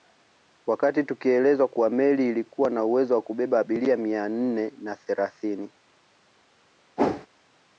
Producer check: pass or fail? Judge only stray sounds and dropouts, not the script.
fail